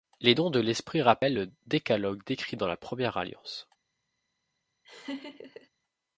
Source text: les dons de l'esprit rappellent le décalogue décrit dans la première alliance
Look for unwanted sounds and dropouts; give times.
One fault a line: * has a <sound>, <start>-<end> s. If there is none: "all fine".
* has a laugh, 4.8-5.7 s